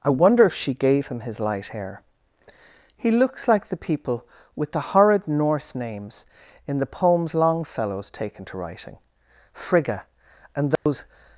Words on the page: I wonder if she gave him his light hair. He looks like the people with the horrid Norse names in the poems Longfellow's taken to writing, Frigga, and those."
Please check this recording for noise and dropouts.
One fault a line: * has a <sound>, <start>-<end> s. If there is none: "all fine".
* has a dropout, 10.8-10.9 s